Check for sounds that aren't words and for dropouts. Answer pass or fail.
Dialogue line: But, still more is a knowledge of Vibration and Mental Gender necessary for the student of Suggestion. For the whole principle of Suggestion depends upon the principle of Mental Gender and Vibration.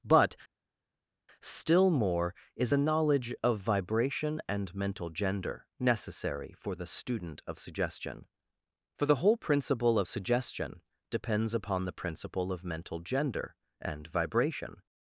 pass